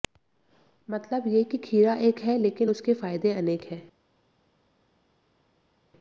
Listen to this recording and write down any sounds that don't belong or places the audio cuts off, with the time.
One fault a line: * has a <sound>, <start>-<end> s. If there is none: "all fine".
all fine